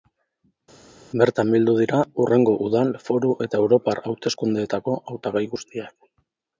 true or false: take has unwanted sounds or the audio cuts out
false